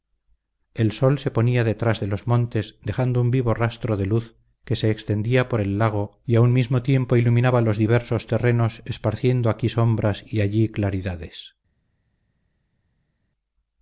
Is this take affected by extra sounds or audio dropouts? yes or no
no